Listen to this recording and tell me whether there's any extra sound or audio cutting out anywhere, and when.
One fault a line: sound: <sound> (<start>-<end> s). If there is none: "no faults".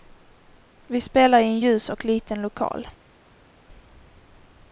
no faults